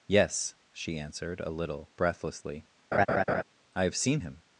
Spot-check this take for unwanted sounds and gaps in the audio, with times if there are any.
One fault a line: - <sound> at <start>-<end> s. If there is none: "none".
- laugh at 2.9-3.4 s